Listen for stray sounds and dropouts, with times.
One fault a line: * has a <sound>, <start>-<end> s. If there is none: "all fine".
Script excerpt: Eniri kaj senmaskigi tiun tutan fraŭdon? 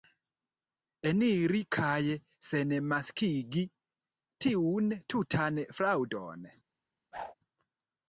* has a whoosh, 7.1-7.3 s